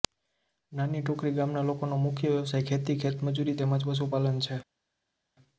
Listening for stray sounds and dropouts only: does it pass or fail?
pass